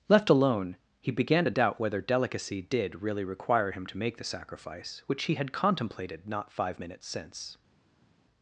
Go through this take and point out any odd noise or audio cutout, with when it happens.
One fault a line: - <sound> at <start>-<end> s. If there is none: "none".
none